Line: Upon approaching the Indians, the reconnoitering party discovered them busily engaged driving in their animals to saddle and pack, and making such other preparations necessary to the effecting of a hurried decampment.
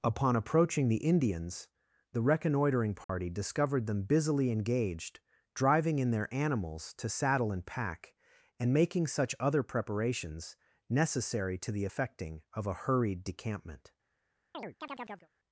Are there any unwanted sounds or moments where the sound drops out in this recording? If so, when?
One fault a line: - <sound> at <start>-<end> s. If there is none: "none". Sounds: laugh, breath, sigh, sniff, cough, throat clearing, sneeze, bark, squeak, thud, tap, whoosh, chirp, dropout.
- dropout at 3.0-3.1 s
- chirp at 14.5-15.3 s